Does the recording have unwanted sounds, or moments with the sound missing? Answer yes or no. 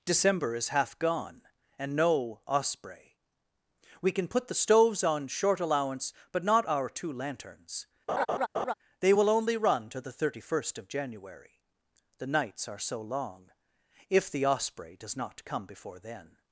yes